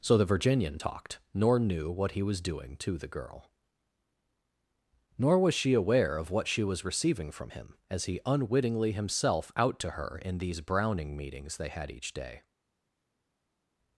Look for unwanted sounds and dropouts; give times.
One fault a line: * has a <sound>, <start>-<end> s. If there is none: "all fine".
all fine